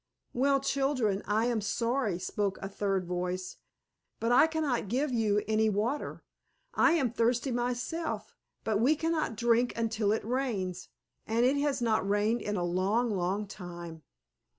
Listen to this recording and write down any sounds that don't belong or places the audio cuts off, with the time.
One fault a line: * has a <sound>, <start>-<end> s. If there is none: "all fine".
all fine